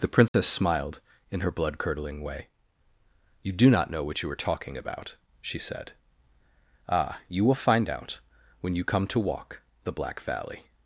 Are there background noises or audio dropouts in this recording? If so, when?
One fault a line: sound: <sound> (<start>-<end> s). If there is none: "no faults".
sound: dropout (0.3-0.3 s)